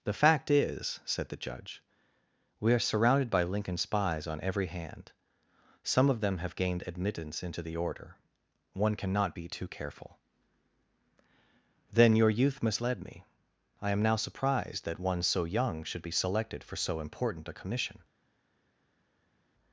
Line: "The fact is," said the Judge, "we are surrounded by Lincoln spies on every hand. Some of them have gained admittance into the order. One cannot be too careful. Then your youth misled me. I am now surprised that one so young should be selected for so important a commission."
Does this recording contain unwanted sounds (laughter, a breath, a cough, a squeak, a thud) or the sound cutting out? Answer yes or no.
no